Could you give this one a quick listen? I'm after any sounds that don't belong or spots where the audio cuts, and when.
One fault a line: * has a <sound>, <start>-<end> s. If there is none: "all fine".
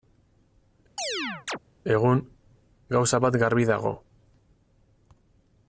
* has a chirp, 1.0-1.6 s